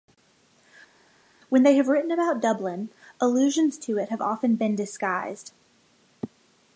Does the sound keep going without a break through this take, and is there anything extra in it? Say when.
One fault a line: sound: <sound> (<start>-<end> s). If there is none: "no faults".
no faults